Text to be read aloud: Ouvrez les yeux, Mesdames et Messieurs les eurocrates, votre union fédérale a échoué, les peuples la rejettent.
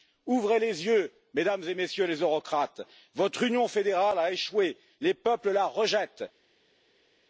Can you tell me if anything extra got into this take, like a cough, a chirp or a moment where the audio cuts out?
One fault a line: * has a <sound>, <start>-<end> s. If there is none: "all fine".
all fine